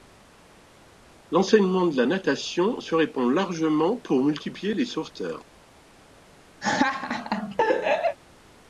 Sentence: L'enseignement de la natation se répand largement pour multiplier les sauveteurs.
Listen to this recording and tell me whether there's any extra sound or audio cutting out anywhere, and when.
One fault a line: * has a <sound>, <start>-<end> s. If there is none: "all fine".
* has a laugh, 6.6-8.2 s